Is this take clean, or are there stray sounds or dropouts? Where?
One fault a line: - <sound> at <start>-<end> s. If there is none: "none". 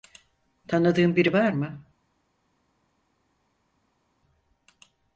none